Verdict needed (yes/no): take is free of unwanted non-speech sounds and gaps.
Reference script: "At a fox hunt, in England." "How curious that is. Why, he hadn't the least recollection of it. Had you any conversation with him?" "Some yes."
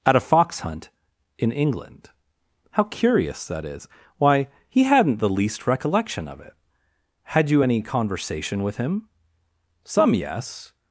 yes